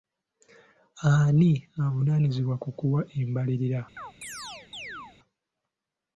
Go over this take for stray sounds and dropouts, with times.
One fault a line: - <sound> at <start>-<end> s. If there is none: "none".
- chirp at 4.0-5.2 s